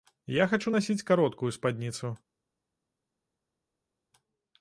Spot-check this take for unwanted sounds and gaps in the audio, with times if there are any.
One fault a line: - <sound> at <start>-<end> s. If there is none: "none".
none